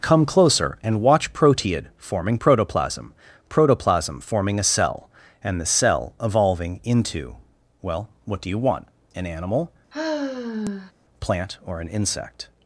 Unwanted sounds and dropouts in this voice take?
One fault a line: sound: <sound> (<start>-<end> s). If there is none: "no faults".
sound: sigh (9.9-10.9 s)